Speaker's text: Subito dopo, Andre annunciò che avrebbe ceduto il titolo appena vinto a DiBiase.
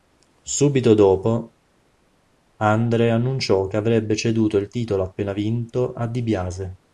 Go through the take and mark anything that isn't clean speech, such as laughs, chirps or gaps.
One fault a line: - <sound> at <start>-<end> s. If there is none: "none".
none